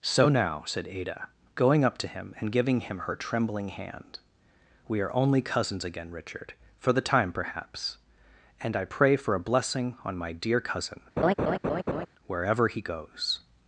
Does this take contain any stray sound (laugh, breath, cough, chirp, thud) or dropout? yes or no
yes